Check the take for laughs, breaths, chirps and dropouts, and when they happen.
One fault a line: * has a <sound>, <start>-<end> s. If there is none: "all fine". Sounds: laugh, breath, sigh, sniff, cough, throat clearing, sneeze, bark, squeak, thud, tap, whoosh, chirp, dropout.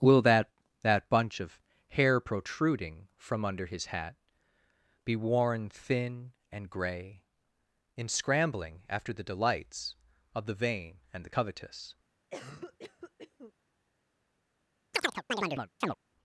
* has a cough, 12.3-13.5 s
* has a chirp, 14.9-16.0 s